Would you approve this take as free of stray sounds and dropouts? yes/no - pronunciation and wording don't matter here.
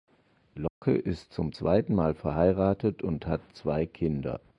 no